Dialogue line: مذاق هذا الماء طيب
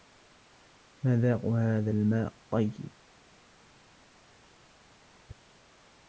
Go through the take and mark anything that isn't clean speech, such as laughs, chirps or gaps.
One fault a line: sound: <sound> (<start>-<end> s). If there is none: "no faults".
no faults